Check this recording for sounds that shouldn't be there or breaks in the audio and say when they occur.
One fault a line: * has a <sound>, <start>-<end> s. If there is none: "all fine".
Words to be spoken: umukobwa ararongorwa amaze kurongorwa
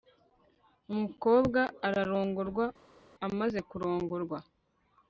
all fine